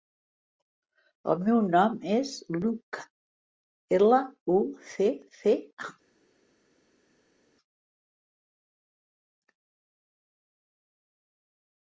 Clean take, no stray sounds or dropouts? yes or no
yes